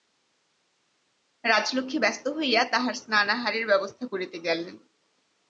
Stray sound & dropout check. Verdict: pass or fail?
pass